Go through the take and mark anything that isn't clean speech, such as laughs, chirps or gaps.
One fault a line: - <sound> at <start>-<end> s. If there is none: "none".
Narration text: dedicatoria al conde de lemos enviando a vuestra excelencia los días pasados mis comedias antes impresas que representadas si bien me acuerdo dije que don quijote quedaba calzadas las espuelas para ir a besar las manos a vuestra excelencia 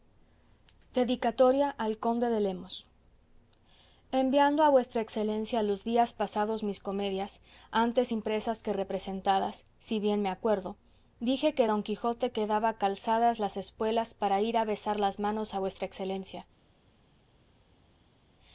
none